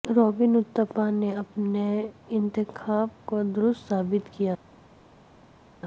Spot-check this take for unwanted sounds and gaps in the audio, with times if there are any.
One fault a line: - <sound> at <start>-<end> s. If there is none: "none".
none